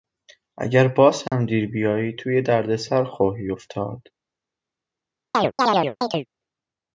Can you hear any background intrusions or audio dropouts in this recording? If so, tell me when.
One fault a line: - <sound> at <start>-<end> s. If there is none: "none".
- dropout at 1.3-1.3 s
- chirp at 5.3-6.3 s